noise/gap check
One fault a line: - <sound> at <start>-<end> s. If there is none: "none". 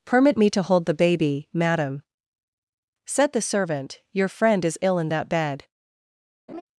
- laugh at 6.5-6.6 s